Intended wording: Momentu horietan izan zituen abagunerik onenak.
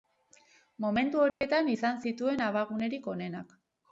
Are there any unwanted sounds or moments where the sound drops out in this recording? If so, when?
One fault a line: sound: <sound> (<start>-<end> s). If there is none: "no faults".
sound: dropout (1.3-1.4 s)